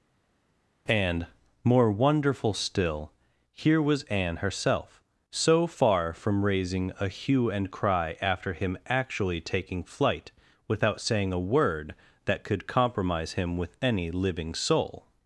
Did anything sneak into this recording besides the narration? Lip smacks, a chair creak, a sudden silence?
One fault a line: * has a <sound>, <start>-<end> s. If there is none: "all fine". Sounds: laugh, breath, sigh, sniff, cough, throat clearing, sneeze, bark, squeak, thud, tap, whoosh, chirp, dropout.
all fine